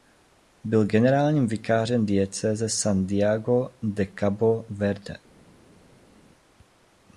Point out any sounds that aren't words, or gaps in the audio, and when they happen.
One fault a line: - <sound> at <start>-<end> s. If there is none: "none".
none